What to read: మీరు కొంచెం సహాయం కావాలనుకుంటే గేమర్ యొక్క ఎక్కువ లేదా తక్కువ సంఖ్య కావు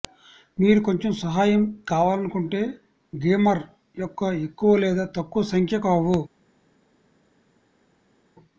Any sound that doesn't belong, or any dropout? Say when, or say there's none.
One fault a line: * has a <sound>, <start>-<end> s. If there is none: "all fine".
all fine